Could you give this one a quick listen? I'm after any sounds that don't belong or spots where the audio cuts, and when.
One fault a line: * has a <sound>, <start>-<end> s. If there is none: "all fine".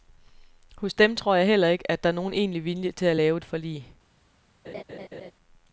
* has a laugh, 4.6-5.3 s